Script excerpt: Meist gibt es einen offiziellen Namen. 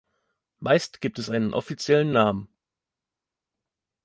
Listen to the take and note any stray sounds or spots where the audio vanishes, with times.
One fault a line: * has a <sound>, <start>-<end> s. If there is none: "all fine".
all fine